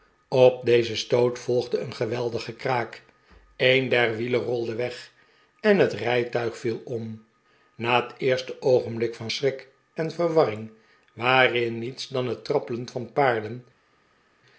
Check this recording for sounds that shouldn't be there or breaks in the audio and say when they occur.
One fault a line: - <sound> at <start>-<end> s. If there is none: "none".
none